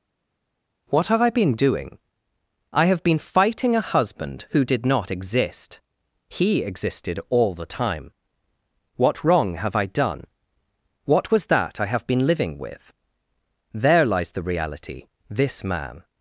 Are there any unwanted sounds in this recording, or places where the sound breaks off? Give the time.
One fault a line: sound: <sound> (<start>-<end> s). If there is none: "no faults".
no faults